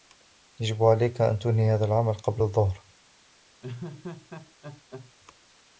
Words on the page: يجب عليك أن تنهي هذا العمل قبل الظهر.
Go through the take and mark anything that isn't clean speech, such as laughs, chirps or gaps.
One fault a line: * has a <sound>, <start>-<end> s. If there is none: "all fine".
* has a laugh, 3.6-5.1 s